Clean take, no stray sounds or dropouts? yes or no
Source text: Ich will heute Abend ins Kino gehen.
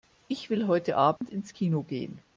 no